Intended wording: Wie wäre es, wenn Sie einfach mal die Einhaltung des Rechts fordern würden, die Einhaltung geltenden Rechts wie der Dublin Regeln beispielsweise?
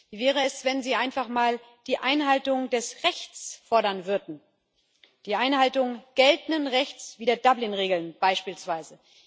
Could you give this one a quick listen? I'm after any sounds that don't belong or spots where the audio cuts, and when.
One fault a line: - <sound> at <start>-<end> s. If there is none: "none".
none